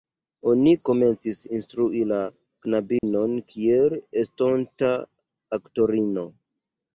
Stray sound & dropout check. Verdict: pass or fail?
fail